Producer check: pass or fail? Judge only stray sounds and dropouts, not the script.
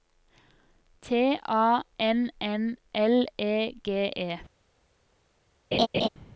fail